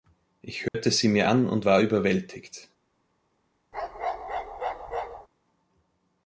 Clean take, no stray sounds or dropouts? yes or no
no